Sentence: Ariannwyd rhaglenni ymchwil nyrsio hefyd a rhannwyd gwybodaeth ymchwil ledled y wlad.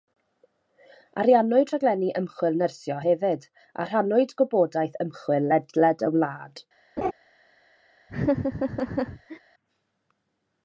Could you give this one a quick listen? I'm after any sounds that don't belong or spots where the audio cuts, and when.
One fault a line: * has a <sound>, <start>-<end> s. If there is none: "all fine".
* has a laugh, 7.0-7.1 s
* has a laugh, 8.1-9.4 s